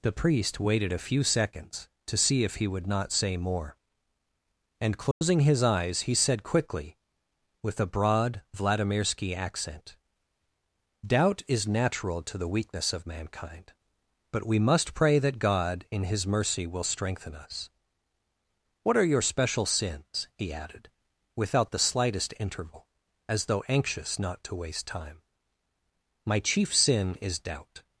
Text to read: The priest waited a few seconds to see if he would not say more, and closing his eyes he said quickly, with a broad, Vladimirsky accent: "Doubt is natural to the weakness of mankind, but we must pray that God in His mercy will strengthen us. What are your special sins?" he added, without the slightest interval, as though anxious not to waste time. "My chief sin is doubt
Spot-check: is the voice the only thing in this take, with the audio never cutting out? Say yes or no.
no